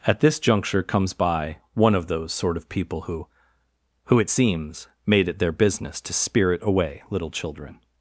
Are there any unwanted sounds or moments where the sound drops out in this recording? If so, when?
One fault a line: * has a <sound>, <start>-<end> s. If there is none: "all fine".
all fine